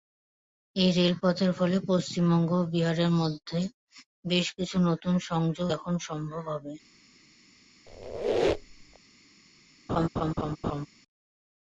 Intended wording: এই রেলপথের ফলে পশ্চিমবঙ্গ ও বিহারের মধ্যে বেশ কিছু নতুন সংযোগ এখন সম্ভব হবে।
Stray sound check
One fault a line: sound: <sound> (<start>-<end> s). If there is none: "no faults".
sound: squeak (7.9-9.0 s)
sound: laugh (9.9-10.9 s)